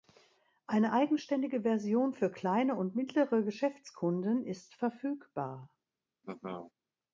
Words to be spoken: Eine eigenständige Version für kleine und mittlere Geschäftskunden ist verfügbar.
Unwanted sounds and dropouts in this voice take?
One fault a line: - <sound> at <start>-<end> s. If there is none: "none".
- laugh at 6.2-6.7 s